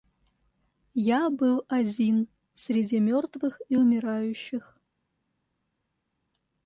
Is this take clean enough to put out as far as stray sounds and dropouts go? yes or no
yes